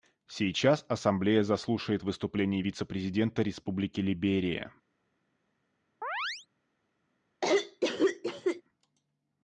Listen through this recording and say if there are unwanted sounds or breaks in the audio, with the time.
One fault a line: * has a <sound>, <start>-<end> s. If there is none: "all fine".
* has a chirp, 6.0-6.5 s
* has a cough, 7.4-8.6 s